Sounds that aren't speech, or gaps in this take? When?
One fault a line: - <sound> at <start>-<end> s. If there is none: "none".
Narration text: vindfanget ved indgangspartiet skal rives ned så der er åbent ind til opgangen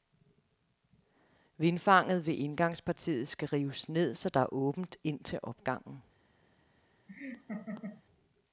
- laugh at 7.1-8.0 s